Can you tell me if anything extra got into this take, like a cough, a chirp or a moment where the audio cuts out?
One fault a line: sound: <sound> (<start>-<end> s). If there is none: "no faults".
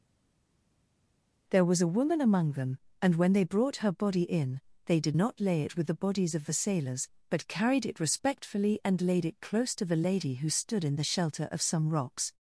no faults